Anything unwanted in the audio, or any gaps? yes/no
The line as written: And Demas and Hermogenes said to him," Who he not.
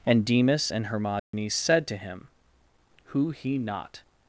yes